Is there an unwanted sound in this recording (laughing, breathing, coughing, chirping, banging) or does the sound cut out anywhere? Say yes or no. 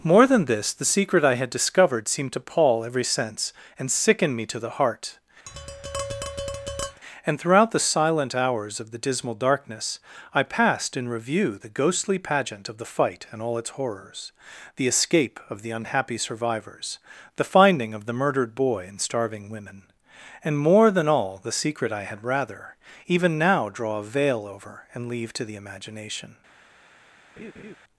yes